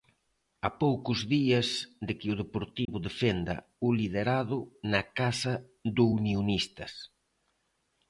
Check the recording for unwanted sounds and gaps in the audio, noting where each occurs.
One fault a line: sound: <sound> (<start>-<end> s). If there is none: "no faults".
sound: dropout (2.9-2.9 s)